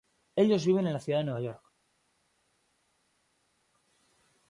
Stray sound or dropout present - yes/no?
no